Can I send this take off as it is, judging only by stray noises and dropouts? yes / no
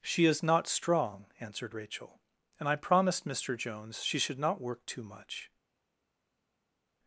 yes